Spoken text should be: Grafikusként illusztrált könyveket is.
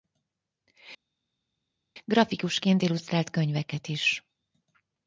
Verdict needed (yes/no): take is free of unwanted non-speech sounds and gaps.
yes